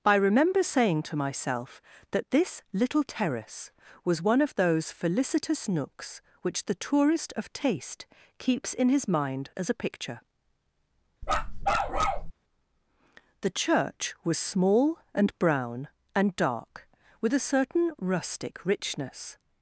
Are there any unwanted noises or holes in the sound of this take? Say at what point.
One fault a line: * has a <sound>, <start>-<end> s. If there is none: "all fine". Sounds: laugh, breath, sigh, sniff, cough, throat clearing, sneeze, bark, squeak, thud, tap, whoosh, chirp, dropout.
* has a bark, 11.2-12.3 s